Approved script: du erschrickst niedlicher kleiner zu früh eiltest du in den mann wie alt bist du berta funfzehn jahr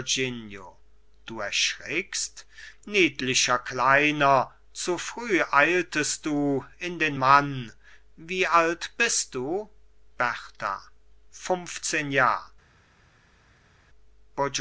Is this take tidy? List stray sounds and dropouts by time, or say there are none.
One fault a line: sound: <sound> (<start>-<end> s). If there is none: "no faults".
no faults